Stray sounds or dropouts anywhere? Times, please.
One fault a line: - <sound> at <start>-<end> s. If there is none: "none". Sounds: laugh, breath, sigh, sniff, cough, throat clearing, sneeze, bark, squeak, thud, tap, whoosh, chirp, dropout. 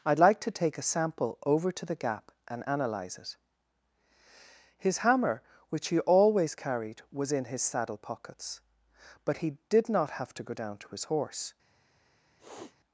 - sniff at 12.4-12.8 s